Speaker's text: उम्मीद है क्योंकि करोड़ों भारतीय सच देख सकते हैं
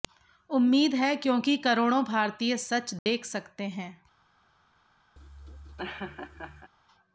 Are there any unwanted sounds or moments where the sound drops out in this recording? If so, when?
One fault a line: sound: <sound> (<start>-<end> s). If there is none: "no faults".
sound: dropout (3.0-3.1 s)
sound: laugh (5.2-6.7 s)